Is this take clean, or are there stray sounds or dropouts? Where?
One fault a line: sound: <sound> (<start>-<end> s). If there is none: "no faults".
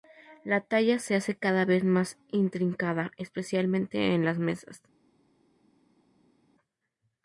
no faults